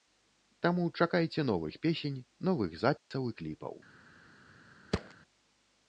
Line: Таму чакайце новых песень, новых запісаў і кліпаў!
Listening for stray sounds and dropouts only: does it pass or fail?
fail